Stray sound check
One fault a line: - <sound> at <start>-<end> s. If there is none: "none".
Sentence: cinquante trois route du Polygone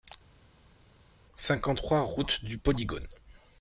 none